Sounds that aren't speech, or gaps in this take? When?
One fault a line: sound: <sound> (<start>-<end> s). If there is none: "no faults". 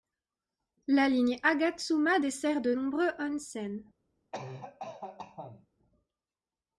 sound: cough (4.3-5.7 s)